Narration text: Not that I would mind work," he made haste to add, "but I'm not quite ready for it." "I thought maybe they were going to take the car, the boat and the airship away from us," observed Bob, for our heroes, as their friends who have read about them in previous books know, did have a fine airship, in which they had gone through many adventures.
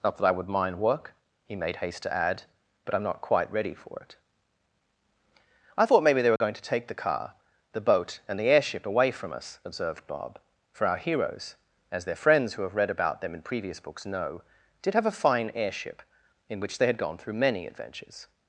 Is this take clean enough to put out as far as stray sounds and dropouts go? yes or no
no